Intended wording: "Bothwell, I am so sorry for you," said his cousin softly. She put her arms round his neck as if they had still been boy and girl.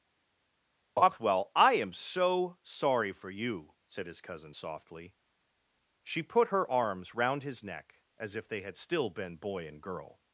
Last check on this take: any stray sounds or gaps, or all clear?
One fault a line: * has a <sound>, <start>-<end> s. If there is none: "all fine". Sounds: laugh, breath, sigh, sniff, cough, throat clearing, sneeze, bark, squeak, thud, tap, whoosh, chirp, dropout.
all fine